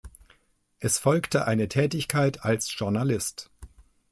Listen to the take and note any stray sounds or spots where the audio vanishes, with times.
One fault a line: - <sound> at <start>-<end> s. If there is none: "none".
none